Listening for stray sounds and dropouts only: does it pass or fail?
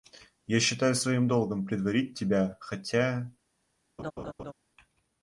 fail